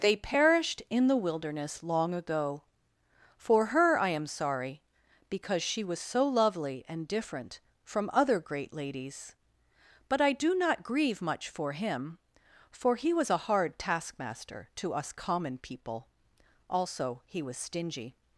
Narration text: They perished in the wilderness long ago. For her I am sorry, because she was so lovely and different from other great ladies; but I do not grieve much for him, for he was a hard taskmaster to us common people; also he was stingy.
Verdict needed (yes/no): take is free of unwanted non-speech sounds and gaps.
yes